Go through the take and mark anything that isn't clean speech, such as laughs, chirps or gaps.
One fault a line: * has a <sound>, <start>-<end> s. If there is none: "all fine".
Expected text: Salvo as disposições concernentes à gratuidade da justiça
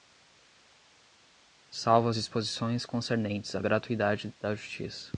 all fine